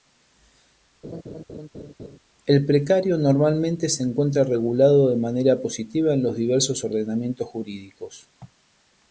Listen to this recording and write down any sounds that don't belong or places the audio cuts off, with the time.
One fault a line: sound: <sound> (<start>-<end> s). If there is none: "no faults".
sound: laugh (1.0-2.2 s)